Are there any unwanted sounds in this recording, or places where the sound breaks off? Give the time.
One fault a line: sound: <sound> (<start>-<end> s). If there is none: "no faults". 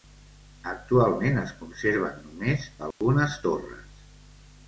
sound: dropout (2.9-3.0 s)